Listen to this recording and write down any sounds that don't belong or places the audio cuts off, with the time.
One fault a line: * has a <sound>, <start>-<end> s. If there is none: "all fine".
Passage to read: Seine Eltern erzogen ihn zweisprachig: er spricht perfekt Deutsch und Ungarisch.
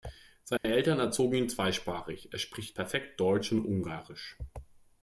* has a dropout, 0.6-0.6 s